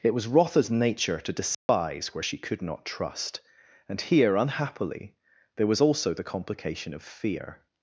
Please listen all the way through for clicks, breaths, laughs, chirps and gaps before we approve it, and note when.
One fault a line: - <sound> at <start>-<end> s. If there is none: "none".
- dropout at 1.5-1.7 s